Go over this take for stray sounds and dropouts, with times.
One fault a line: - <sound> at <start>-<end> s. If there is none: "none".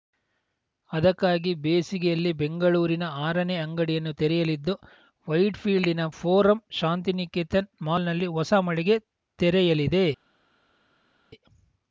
none